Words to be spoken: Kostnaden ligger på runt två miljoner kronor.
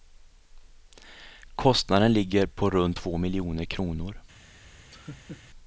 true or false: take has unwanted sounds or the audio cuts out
true